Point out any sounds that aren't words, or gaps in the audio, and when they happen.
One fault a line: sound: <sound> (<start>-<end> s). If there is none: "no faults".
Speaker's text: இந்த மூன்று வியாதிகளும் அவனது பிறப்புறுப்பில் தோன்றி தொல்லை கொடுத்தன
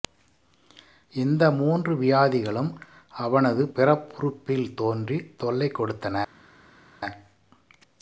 no faults